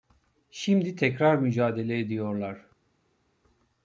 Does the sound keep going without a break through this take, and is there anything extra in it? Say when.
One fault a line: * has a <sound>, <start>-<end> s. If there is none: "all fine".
all fine